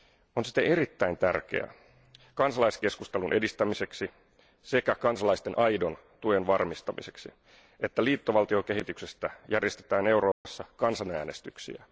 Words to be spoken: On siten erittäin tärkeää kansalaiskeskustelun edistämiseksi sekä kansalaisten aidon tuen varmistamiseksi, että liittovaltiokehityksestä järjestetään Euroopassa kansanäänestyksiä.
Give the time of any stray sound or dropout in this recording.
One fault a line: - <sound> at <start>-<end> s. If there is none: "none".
- dropout at 10.3-10.4 s